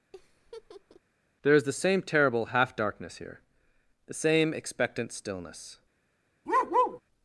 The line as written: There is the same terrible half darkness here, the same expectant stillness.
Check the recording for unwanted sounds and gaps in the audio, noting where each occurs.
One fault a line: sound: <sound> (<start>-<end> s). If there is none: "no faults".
sound: laugh (0.1-1.0 s)
sound: bark (6.5-7.0 s)